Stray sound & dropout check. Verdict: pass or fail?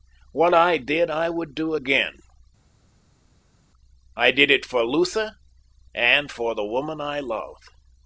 pass